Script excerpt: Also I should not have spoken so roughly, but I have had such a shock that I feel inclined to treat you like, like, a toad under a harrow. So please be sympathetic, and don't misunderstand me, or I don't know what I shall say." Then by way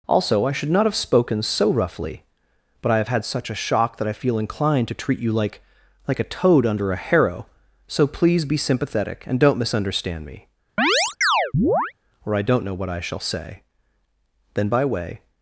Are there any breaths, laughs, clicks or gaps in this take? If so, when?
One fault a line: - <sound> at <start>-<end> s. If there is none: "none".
- chirp at 10.8-11.9 s